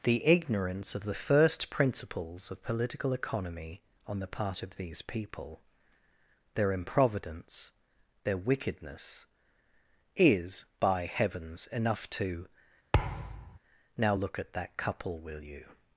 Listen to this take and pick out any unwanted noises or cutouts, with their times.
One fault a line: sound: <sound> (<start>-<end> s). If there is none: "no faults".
sound: thud (12.9-13.6 s)